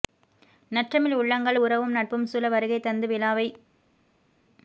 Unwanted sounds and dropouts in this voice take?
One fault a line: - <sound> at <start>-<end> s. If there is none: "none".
none